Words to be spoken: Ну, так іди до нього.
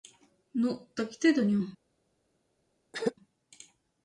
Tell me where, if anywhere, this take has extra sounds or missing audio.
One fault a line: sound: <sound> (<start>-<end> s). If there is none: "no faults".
sound: throat clearing (2.9-3.1 s)